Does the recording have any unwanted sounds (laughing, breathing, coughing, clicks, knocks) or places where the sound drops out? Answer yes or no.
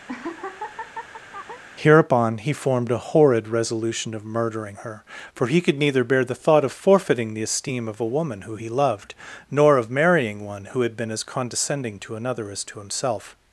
yes